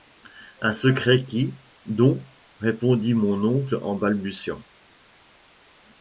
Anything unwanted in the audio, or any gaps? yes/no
no